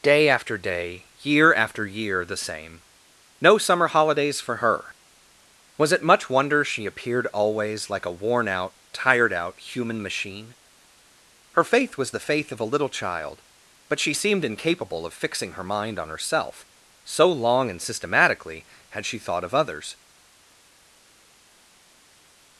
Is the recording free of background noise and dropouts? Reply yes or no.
yes